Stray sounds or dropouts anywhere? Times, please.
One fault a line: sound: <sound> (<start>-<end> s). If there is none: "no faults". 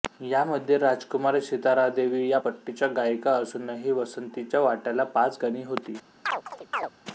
sound: chirp (6.2-6.9 s)